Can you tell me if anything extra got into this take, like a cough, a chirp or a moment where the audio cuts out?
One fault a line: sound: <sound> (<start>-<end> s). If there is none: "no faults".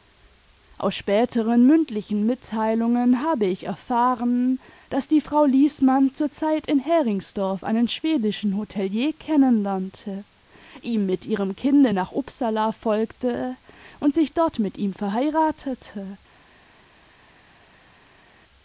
no faults